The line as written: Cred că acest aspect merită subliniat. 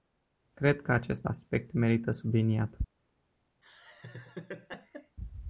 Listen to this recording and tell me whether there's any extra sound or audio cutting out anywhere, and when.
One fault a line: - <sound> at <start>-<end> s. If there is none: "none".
- laugh at 3.6-5.2 s